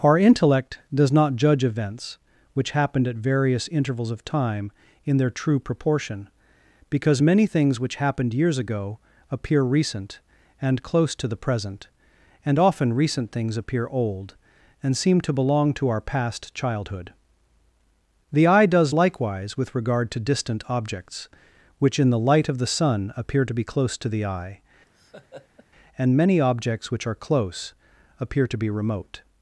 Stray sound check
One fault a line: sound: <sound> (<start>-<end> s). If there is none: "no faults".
sound: laugh (24.9-25.7 s)